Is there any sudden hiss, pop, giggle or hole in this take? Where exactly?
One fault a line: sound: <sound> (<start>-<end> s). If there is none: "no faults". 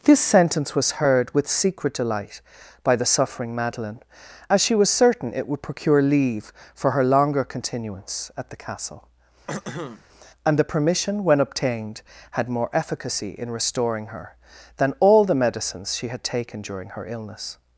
sound: throat clearing (9.5-10.0 s)